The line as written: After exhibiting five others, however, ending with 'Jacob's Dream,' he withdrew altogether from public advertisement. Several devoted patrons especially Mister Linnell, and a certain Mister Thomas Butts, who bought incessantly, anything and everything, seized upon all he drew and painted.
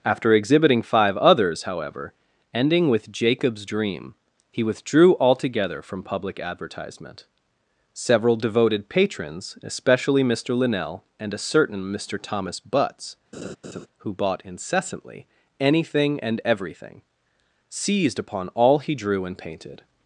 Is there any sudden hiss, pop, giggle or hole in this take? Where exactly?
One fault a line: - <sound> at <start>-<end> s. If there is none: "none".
- laugh at 13.3-13.9 s